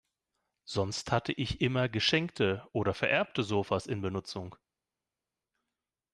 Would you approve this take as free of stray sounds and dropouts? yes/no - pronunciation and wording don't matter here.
yes